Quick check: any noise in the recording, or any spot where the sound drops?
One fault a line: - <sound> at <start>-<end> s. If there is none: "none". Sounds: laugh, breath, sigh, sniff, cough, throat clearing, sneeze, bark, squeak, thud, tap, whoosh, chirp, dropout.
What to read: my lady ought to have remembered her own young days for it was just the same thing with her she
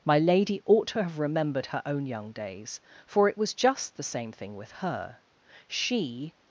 none